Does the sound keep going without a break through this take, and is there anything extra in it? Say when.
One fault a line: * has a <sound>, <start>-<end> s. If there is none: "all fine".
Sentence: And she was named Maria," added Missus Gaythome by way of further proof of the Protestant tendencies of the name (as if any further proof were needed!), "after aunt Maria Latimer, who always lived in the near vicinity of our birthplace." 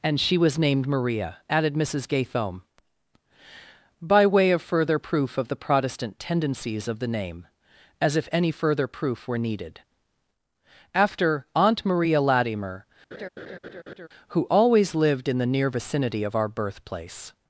* has a laugh, 13.1-14.1 s